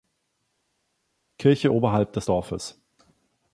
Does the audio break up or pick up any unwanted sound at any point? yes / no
no